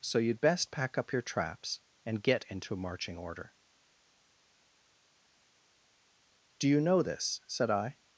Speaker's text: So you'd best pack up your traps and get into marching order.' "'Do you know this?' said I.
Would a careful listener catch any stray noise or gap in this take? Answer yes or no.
no